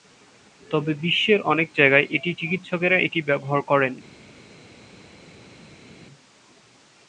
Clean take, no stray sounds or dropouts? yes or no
yes